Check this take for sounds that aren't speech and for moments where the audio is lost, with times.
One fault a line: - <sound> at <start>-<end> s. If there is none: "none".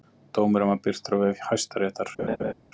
- laugh at 2.2-2.5 s